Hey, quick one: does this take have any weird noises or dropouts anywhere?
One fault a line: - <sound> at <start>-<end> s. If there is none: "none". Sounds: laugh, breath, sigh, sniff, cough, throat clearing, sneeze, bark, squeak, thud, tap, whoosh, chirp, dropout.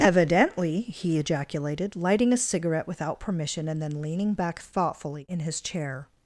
none